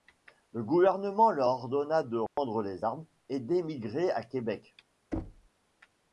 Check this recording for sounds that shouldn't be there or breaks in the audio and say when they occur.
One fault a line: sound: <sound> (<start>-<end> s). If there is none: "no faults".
sound: dropout (2.3-2.4 s)
sound: thud (5.1-5.5 s)